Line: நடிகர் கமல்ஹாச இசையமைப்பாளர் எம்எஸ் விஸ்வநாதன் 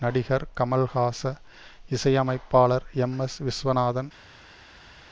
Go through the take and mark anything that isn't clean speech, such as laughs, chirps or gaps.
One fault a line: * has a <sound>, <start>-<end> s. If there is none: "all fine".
all fine